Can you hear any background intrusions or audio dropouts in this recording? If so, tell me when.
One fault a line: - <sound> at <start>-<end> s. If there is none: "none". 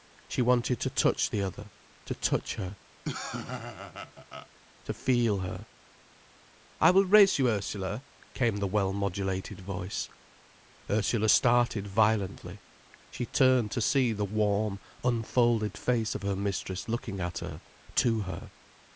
- laugh at 3.0-4.5 s